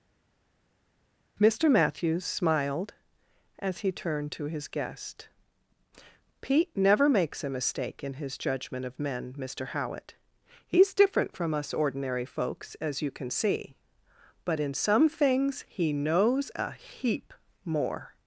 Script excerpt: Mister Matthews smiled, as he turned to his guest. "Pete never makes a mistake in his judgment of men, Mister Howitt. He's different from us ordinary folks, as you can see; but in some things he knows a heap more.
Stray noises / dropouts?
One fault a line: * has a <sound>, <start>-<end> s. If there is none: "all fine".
all fine